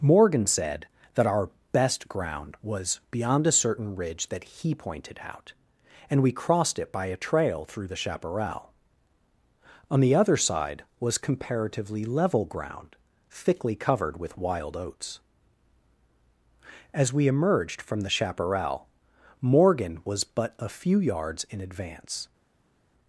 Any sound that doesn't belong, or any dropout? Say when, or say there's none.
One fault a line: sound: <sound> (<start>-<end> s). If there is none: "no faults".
no faults